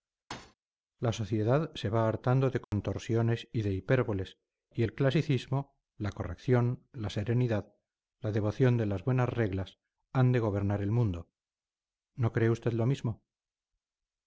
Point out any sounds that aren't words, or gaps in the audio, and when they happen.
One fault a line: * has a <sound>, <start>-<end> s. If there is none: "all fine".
* has a thud, 0.3-0.6 s
* has a dropout, 2.6-2.7 s